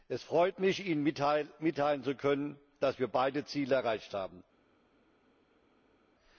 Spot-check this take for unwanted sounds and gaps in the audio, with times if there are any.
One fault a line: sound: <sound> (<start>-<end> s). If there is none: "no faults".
no faults